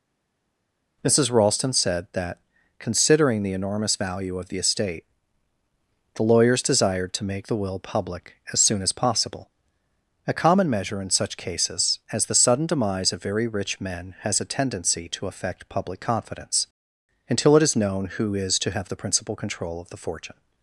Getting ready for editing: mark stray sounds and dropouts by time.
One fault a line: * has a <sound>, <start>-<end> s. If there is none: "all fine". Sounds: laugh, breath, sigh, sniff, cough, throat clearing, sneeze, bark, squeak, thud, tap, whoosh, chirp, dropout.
all fine